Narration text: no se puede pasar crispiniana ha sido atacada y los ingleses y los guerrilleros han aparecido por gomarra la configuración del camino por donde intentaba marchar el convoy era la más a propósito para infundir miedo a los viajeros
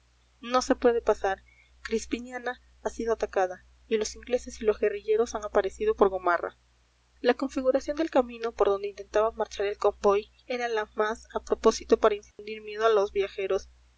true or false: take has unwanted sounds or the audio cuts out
true